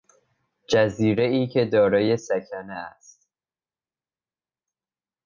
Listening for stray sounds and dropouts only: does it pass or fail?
pass